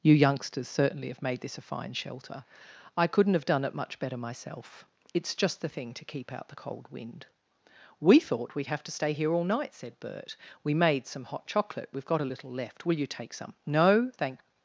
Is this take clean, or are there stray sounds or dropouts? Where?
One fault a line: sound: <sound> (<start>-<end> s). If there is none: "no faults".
no faults